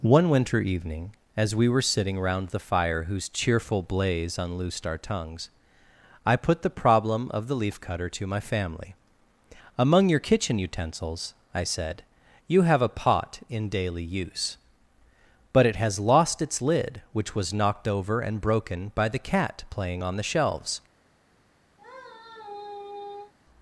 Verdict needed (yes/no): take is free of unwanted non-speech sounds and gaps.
no